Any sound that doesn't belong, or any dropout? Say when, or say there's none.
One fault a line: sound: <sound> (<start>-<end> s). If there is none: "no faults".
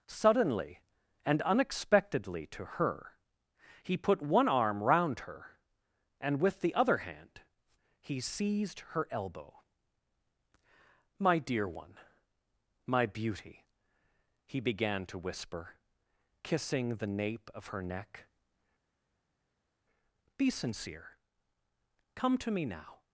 no faults